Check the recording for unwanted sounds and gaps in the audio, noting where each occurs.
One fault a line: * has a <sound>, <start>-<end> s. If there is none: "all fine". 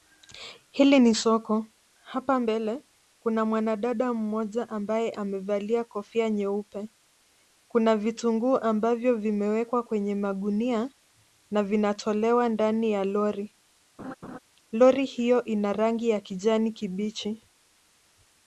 * has a laugh, 14.0-14.4 s